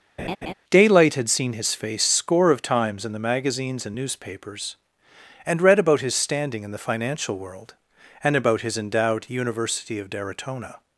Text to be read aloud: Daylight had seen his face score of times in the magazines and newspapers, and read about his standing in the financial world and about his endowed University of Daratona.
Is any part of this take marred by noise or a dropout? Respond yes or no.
yes